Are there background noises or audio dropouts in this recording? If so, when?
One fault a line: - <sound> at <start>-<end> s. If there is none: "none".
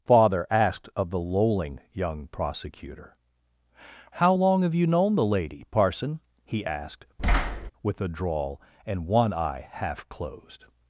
- thud at 7.2-7.7 s